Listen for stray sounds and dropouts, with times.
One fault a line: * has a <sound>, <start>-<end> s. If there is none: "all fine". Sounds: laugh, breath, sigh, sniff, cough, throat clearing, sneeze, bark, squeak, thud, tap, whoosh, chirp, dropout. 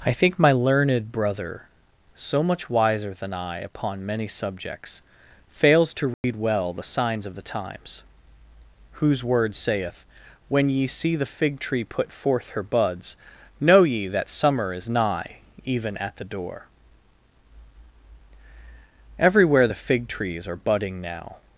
* has a dropout, 6.1-6.2 s